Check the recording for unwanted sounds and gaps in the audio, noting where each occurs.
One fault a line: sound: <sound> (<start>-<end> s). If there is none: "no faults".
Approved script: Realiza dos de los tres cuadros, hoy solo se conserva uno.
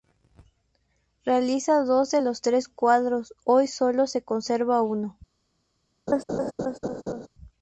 sound: laugh (6.1-7.3 s)